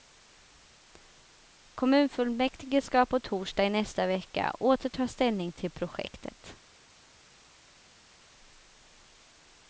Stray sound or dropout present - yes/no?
no